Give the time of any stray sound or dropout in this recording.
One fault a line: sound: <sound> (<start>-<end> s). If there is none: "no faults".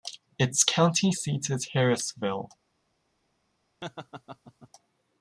sound: laugh (3.8-4.7 s)